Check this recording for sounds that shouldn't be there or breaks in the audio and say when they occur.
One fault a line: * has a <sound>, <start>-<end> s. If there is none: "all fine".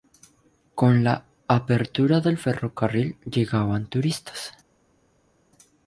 all fine